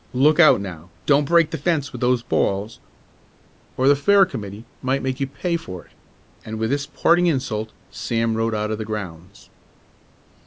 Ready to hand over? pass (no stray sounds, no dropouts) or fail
pass